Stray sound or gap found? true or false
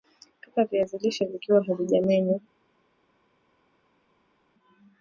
false